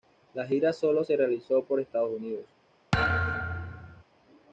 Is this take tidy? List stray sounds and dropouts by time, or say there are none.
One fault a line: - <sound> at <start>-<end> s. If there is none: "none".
- thud at 2.9-4.0 s